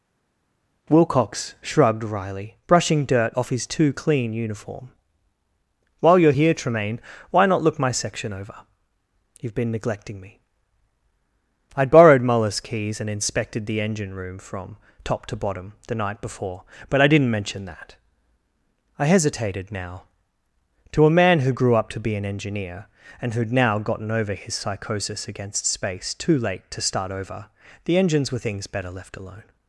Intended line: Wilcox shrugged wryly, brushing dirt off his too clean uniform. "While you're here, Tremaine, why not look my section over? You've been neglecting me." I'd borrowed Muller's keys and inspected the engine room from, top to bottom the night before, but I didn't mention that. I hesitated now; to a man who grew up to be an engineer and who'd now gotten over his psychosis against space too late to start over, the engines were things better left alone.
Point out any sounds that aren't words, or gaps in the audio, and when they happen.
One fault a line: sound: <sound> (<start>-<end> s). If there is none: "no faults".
no faults